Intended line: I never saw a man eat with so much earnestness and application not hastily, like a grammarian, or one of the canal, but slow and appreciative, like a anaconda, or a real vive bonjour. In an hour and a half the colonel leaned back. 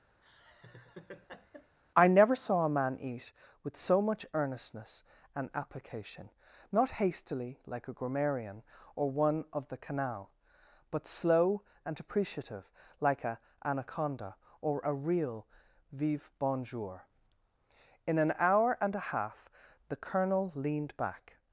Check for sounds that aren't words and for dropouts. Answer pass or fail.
fail